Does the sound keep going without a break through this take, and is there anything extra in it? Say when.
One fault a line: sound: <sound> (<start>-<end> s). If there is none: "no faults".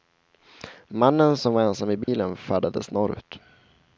sound: dropout (2.0-2.1 s)